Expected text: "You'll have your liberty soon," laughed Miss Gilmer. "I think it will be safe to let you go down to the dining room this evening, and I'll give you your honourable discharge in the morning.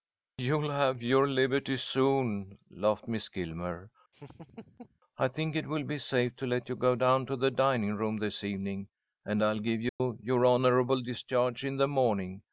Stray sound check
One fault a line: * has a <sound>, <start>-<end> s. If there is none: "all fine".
* has a laugh, 4.1-5.0 s
* has a dropout, 9.9-10.0 s